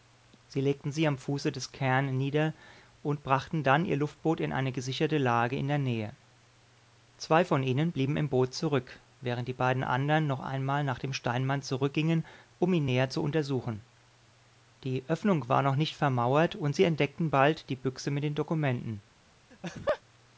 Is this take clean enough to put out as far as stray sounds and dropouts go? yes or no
no